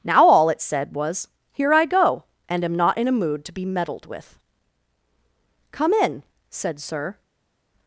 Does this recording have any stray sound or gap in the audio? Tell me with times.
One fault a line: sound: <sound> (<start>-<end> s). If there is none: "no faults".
no faults